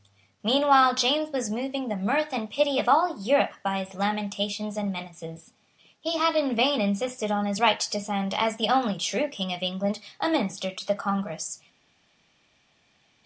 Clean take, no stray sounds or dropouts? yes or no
yes